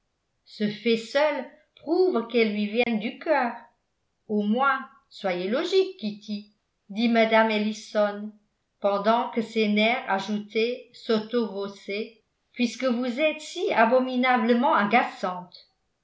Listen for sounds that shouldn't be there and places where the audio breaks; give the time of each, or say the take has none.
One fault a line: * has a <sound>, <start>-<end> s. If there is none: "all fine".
* has a dropout, 2.8-2.9 s